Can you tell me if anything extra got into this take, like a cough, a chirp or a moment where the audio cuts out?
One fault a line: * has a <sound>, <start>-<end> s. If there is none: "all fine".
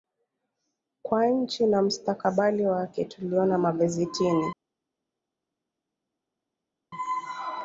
all fine